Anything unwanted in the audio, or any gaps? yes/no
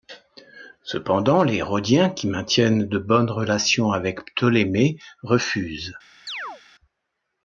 yes